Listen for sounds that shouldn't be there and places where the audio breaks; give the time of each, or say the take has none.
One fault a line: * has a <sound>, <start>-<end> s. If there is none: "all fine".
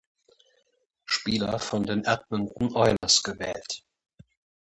* has a dropout, 3.0-3.0 s